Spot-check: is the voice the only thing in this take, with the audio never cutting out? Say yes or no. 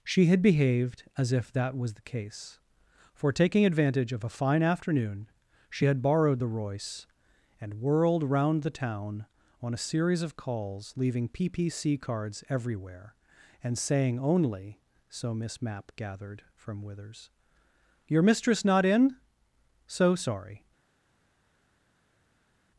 yes